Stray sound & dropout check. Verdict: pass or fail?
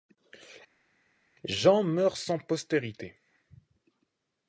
pass